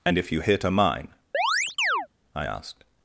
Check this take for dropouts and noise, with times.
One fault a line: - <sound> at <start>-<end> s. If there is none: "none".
- chirp at 1.3-2.1 s